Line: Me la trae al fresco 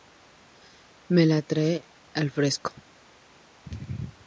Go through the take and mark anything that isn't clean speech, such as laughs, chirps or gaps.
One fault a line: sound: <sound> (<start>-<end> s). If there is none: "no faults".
no faults